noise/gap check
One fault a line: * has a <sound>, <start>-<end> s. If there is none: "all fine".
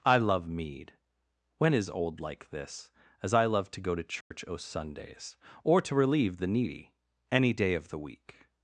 * has a dropout, 4.2-4.3 s